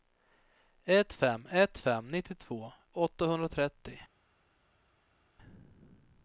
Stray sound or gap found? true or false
false